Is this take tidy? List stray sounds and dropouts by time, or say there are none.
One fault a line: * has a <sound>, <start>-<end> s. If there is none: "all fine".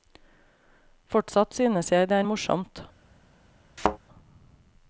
* has a thud, 3.8-4.0 s